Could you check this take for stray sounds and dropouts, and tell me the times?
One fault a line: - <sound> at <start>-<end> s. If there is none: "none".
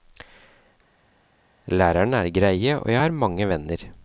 none